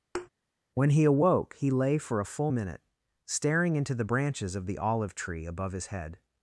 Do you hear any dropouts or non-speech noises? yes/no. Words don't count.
yes